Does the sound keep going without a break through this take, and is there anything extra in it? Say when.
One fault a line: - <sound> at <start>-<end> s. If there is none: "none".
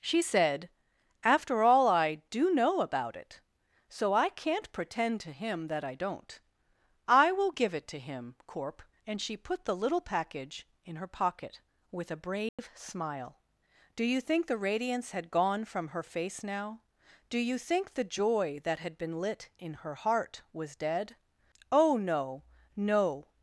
- dropout at 12.5-12.6 s